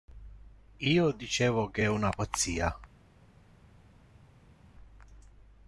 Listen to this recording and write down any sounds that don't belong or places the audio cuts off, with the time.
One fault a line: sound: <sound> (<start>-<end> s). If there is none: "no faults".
no faults